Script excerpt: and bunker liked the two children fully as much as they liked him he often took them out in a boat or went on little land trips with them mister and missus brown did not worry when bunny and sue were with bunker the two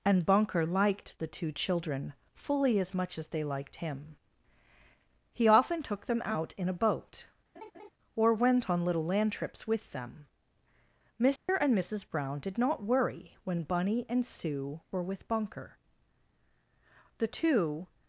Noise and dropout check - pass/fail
fail